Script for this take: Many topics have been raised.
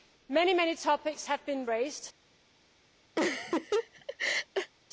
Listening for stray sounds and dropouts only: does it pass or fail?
fail